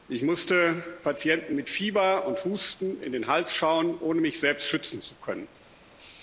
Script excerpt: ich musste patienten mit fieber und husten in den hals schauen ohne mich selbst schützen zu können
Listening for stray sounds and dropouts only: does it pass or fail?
pass